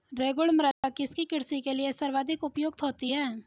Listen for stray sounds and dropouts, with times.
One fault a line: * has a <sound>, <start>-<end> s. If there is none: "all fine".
* has a dropout, 0.7-0.8 s